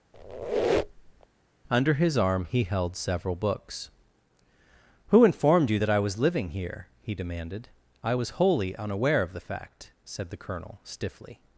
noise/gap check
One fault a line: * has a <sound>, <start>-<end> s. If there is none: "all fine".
* has a squeak, 0.1-1.3 s